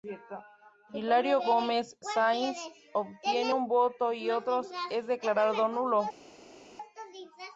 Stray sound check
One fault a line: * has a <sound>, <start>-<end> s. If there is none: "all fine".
all fine